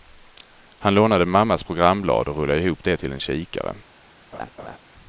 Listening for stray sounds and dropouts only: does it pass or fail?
fail